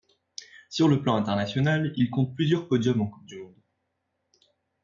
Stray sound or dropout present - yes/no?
no